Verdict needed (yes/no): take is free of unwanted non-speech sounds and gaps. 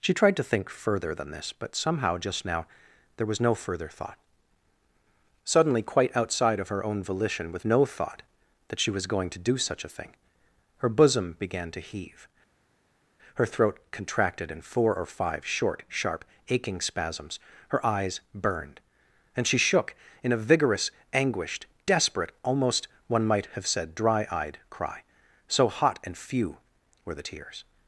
yes